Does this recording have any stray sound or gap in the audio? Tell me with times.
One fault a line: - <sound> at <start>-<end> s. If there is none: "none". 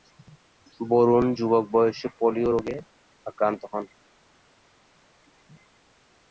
none